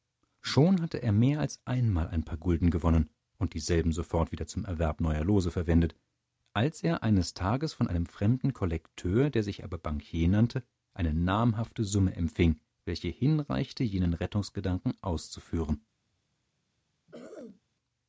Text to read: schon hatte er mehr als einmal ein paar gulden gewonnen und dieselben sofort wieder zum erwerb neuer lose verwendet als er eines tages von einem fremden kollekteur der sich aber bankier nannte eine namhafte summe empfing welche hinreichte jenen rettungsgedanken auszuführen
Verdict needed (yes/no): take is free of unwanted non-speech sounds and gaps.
no